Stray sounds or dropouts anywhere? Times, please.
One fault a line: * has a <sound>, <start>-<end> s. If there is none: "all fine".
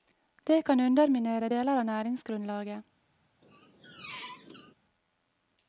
* has a squeak, 3.4-4.7 s